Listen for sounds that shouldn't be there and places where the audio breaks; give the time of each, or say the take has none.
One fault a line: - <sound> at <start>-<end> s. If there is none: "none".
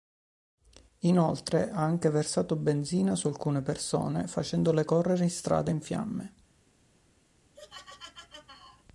- laugh at 7.5-8.8 s